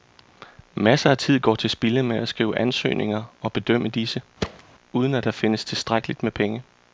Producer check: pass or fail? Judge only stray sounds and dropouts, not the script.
fail